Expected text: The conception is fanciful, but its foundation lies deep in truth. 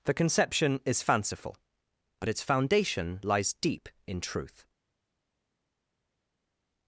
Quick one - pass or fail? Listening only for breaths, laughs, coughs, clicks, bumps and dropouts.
pass